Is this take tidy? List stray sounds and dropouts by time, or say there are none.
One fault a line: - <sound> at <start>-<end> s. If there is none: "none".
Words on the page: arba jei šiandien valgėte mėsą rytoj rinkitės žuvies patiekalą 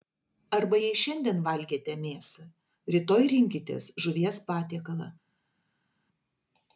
none